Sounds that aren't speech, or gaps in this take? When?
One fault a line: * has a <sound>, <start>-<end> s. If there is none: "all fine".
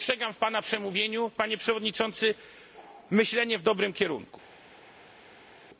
all fine